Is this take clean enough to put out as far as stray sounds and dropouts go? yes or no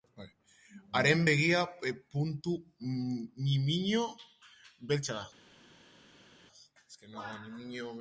yes